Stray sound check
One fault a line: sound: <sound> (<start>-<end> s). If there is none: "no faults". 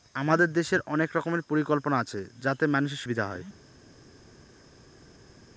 no faults